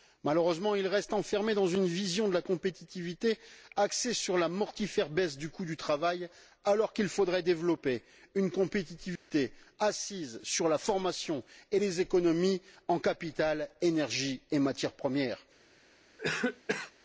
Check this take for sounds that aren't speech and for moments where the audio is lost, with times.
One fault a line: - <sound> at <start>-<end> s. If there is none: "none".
- dropout at 9.2-9.3 s
- cough at 16.2-16.9 s